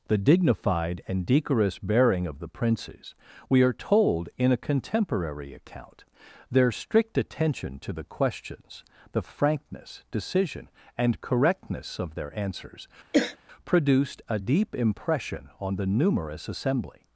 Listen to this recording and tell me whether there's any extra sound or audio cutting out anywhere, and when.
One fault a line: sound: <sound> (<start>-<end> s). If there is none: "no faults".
sound: throat clearing (13.1-13.4 s)